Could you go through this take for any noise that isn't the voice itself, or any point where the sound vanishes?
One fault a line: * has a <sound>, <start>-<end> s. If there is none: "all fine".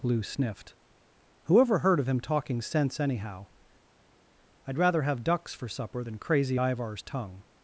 all fine